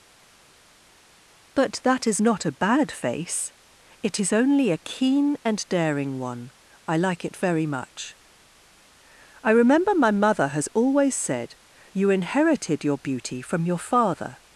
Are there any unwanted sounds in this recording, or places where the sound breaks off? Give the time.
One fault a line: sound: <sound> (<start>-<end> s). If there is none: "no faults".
no faults